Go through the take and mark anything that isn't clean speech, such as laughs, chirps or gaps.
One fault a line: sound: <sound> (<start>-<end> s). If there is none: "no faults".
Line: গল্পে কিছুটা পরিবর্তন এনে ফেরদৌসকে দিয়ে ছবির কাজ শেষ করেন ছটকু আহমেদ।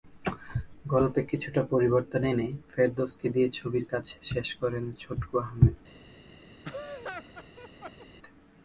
sound: laugh (6.6-8.1 s)